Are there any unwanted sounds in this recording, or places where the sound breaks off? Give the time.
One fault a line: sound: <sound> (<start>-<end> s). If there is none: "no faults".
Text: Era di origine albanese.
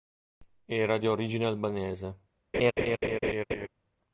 sound: laugh (2.5-3.7 s)